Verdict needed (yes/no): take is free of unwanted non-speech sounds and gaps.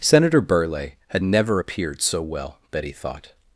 yes